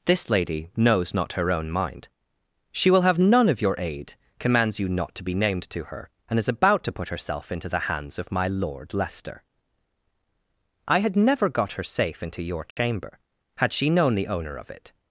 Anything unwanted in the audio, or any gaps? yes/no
yes